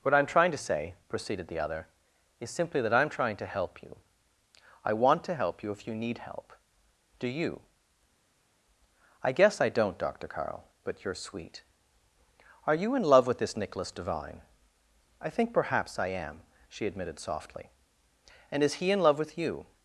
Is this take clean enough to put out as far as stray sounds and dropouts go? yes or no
yes